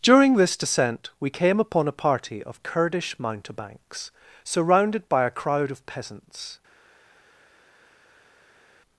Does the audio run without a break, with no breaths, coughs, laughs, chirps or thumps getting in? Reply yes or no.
yes